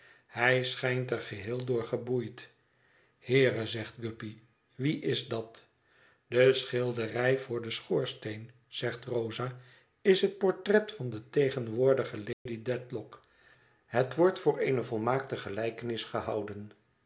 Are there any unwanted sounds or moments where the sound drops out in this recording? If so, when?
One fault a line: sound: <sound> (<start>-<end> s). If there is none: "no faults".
sound: dropout (12.3-12.5 s)